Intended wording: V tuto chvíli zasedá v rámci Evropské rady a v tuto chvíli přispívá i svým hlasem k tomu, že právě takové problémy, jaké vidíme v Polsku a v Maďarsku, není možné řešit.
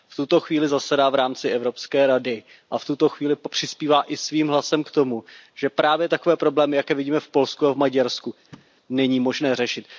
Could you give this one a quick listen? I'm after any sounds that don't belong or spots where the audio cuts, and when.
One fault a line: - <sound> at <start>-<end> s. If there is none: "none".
- thud at 8.5-8.7 s